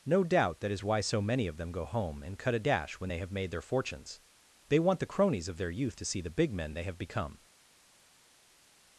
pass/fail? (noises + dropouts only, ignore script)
pass